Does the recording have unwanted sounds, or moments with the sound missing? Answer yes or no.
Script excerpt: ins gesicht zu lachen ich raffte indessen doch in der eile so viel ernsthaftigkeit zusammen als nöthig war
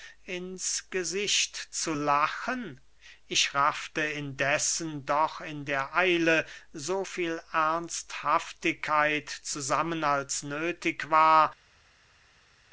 no